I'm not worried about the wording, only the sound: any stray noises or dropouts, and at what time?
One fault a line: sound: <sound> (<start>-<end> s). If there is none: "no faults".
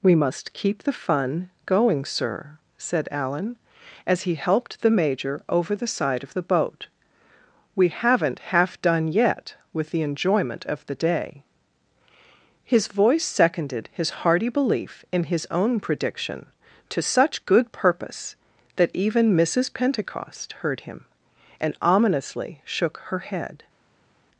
no faults